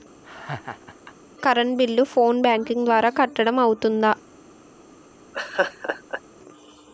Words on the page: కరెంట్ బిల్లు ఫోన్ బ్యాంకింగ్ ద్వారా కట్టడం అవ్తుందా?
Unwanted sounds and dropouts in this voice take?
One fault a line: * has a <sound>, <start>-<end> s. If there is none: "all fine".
* has a laugh, 0.2-1.1 s
* has a laugh, 5.3-6.2 s